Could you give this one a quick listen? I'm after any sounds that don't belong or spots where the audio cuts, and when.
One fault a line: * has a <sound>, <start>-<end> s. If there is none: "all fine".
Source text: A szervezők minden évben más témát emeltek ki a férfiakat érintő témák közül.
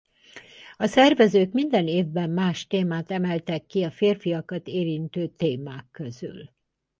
all fine